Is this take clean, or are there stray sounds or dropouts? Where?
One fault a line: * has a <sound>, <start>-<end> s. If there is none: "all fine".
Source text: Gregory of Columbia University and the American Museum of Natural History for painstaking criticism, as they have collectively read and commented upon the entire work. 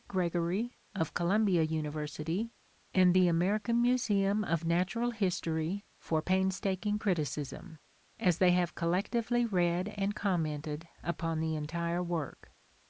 all fine